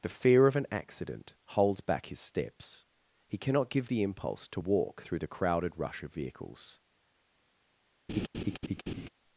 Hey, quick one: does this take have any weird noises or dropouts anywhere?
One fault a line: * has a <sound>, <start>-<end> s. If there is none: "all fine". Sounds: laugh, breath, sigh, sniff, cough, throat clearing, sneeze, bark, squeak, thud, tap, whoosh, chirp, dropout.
* has a laugh, 8.1-9.1 s